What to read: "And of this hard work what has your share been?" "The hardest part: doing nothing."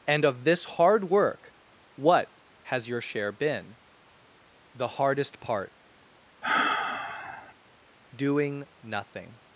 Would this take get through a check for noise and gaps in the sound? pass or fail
fail